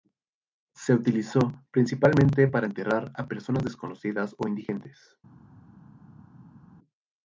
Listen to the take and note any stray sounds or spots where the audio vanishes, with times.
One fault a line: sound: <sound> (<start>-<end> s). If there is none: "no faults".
no faults